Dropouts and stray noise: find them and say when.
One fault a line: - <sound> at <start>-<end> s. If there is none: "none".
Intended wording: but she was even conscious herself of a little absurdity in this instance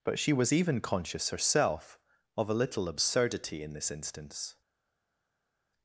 none